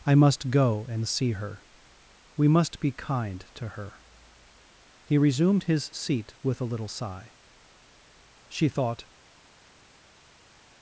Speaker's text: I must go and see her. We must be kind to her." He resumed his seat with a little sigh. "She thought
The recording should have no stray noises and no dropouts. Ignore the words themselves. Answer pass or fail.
pass